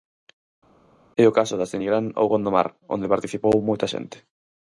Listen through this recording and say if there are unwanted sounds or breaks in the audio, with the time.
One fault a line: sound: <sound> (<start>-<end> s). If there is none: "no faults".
no faults